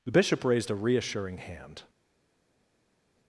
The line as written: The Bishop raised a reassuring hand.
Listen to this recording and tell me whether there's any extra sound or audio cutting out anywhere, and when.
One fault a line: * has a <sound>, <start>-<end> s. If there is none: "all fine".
all fine